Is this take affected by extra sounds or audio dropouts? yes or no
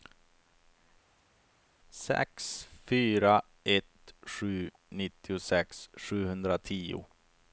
no